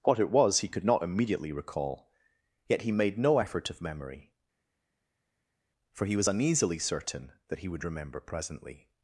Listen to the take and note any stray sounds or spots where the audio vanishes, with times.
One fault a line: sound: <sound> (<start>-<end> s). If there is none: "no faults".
no faults